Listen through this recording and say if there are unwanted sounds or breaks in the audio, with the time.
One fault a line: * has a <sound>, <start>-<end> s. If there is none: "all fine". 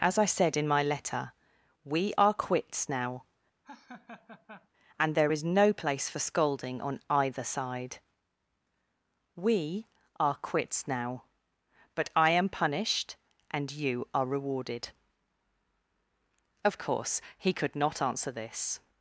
* has a laugh, 3.6-4.7 s